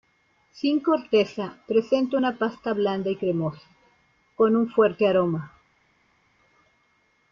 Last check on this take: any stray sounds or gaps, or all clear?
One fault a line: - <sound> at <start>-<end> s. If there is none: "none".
none